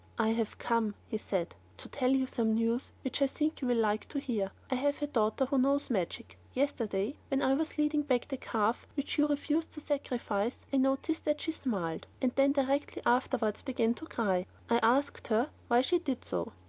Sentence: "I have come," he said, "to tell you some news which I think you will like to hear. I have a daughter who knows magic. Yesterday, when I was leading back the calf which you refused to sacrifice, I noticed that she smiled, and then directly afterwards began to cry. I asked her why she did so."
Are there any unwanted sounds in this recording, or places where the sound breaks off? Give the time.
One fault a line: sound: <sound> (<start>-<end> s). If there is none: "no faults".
no faults